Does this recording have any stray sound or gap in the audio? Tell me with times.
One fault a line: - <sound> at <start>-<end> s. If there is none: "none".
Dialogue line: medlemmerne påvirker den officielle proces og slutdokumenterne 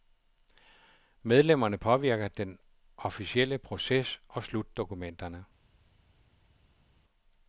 none